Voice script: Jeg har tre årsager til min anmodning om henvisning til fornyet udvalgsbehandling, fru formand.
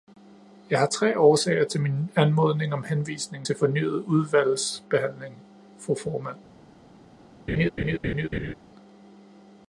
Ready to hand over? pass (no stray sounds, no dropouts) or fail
fail